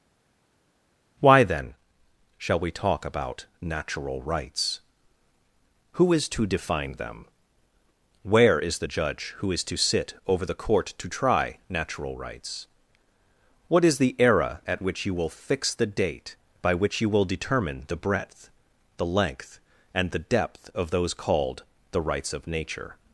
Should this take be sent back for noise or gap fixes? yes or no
no